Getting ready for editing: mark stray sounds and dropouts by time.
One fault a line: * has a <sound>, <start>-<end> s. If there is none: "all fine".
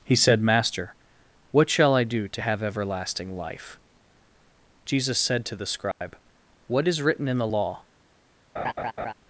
* has a dropout, 5.9-6.0 s
* has a laugh, 8.6-9.1 s